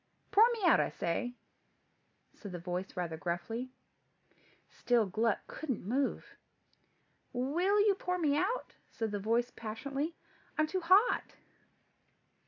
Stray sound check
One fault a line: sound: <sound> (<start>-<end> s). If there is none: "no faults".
no faults